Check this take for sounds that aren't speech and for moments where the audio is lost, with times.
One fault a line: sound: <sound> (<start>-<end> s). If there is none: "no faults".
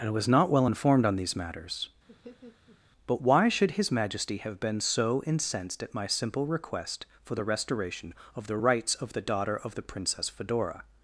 sound: laugh (2.1-2.8 s)